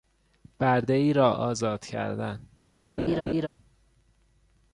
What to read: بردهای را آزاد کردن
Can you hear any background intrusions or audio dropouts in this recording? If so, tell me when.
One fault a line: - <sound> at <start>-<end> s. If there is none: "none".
- laugh at 3.0-3.5 s